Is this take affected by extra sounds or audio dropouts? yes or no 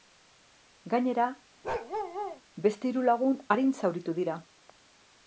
yes